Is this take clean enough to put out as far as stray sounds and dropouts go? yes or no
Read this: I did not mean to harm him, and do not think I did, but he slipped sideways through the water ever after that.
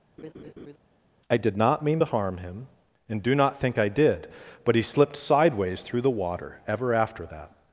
no